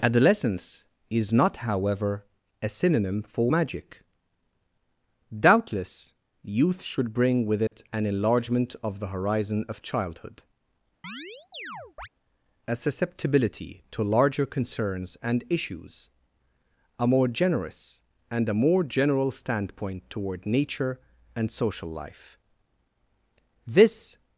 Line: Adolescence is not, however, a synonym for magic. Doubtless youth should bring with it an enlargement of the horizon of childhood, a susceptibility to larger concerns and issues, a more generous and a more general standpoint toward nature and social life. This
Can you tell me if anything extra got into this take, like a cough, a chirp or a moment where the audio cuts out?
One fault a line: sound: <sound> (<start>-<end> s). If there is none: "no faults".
sound: dropout (7.7-7.7 s)
sound: chirp (11.0-12.1 s)